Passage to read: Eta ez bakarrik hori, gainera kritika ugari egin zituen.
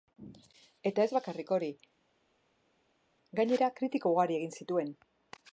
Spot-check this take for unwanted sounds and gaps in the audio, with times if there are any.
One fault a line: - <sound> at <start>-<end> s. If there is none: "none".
none